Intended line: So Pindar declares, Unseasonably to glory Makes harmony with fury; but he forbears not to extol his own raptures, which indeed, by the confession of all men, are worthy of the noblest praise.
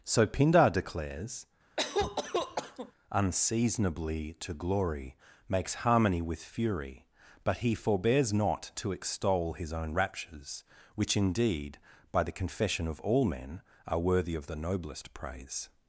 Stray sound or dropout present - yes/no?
yes